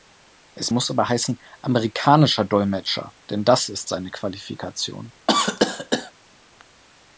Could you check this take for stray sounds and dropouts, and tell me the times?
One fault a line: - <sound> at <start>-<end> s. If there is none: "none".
- cough at 5.3-6.1 s